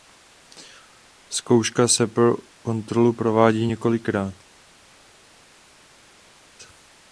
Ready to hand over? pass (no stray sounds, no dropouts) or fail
pass